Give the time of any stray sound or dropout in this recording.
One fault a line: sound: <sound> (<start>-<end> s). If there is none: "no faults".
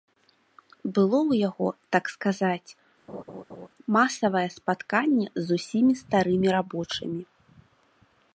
sound: laugh (3.1-3.7 s)